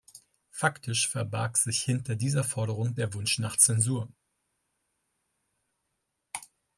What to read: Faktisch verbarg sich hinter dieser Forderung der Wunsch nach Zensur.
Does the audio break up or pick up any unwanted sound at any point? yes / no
no